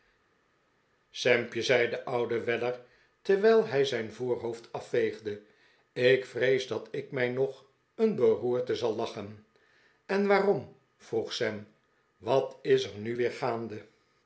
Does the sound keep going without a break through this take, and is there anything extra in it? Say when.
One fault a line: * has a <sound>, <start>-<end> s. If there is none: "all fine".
all fine